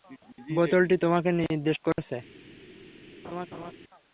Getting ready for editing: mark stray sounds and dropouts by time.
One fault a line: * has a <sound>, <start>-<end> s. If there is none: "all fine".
* has a laugh, 3.2-3.7 s